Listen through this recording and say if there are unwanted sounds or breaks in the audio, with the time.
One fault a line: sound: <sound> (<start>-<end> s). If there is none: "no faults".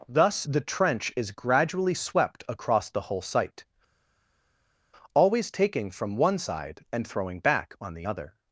no faults